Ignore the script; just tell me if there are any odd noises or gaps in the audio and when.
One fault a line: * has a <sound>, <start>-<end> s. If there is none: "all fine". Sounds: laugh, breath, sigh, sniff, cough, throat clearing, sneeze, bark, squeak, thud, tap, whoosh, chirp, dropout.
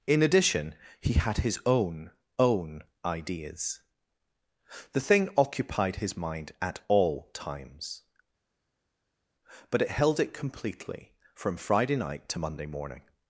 all fine